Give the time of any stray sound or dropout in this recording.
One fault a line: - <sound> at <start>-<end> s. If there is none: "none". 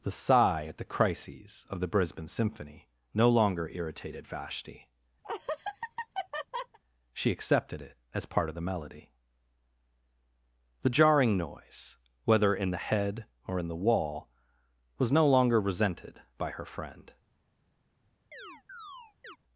- laugh at 5.2-6.8 s
- chirp at 18.3-19.4 s